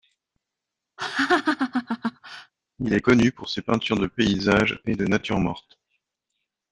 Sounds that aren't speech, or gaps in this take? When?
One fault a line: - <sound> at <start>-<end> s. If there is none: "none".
- laugh at 1.0-2.5 s